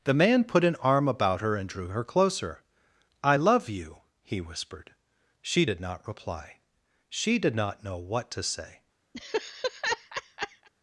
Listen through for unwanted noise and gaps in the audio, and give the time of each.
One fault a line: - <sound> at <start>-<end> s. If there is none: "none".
- laugh at 9.1-10.7 s